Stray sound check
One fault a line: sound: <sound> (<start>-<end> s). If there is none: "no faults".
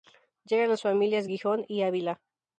no faults